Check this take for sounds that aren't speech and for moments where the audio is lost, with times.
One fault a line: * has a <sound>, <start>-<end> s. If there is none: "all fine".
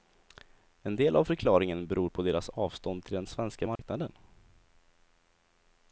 * has a dropout, 3.8-3.8 s